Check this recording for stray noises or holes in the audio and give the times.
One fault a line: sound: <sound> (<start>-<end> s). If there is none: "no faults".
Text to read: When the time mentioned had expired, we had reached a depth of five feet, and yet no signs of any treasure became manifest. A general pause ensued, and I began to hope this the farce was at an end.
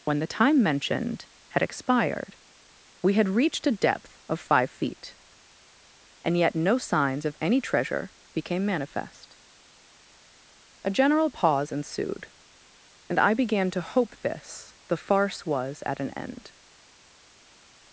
no faults